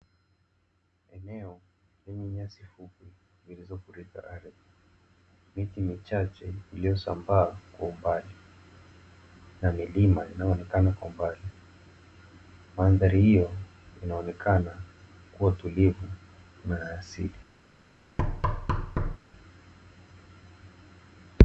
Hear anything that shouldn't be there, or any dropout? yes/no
yes